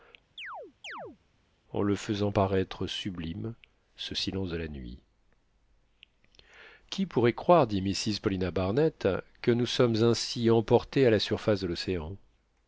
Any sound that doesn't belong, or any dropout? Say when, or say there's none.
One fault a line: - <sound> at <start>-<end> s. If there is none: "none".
- chirp at 0.4-1.2 s